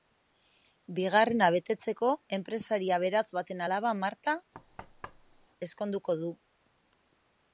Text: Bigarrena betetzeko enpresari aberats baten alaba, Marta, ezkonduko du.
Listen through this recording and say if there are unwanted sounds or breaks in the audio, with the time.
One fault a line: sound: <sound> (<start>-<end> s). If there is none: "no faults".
sound: thud (4.5-5.5 s)